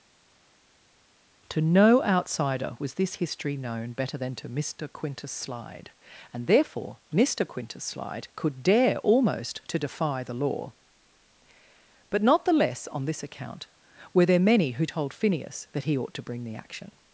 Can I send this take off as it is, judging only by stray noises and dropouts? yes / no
yes